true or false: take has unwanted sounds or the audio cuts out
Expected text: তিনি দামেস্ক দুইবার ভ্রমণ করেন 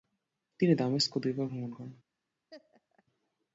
true